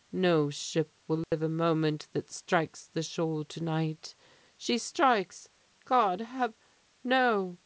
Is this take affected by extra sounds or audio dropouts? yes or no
yes